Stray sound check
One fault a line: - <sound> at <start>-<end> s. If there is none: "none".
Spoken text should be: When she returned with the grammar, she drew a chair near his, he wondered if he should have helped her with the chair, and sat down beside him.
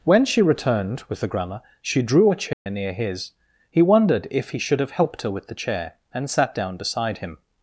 - dropout at 2.5-2.7 s